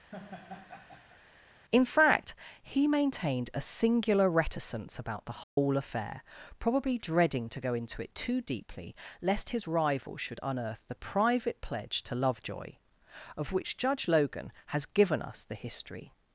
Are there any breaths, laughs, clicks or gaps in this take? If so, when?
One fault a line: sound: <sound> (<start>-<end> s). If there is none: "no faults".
sound: laugh (0.1-1.2 s)
sound: dropout (5.4-5.6 s)